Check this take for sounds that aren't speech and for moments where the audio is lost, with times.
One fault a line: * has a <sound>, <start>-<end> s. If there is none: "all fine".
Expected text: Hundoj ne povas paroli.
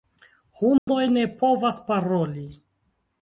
* has a dropout, 0.8-0.9 s